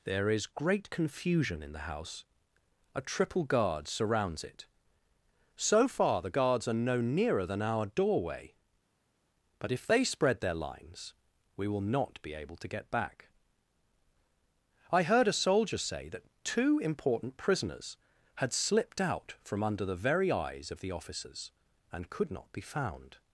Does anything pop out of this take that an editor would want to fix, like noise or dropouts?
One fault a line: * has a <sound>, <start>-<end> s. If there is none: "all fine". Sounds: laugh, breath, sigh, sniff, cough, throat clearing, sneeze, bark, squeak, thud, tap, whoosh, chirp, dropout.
all fine